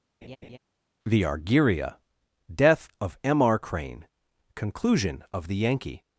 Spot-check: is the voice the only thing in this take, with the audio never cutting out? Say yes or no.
no